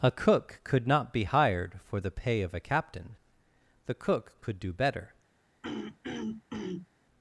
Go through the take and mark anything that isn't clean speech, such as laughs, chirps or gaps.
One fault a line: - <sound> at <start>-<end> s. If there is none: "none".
- throat clearing at 5.6-6.9 s